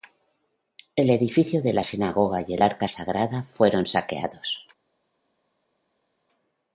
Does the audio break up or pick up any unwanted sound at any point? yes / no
no